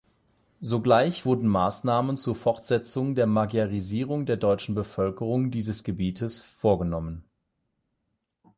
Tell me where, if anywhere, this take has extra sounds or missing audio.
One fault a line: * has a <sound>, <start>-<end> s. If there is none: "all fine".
all fine